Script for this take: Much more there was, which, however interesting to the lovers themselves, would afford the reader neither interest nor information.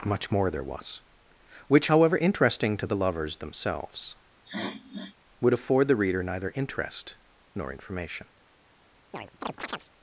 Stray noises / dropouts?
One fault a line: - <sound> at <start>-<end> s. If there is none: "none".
- sniff at 4.4-5.2 s
- chirp at 9.1-9.9 s